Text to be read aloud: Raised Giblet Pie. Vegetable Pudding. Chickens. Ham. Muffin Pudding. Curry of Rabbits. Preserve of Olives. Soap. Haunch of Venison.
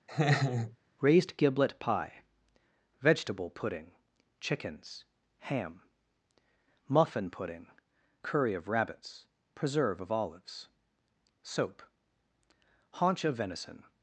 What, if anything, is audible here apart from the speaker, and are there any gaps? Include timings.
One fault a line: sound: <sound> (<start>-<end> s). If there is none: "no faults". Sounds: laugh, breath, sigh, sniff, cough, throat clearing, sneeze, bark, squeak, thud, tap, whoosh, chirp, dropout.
sound: laugh (0.1-0.8 s)